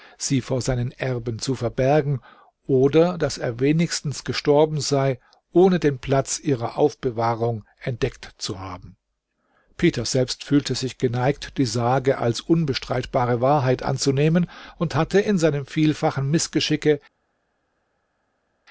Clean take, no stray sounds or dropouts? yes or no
yes